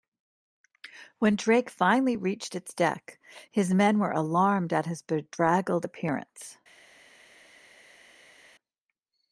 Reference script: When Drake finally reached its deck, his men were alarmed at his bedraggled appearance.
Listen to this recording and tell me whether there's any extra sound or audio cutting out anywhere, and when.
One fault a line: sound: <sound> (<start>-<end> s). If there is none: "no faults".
no faults